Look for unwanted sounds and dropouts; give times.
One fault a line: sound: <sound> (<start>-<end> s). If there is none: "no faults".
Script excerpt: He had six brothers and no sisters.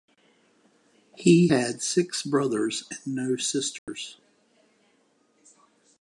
sound: dropout (3.8-3.9 s)